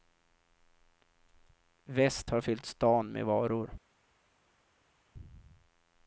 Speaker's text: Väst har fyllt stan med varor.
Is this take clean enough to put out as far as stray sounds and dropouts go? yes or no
yes